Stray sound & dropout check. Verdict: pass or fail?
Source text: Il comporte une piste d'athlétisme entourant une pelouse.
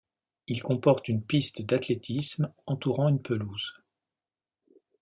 pass